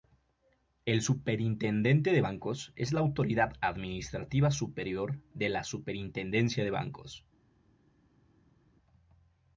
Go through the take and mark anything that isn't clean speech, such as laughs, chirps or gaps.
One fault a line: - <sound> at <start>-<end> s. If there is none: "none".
none